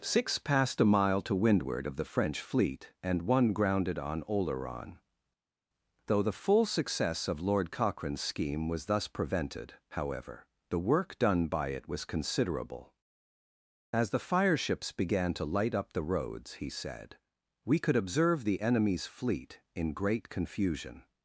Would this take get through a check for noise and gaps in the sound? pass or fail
pass